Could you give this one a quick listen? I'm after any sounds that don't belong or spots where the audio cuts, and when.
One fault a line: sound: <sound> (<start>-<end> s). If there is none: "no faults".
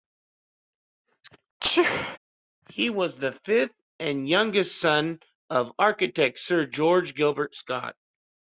sound: sneeze (1.6-2.2 s)